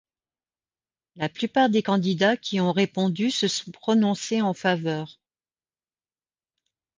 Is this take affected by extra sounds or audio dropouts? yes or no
no